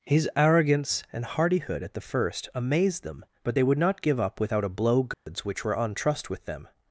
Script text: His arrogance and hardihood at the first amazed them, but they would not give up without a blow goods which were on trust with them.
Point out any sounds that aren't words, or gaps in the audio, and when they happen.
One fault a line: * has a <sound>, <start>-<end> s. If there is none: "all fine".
* has a dropout, 5.1-5.3 s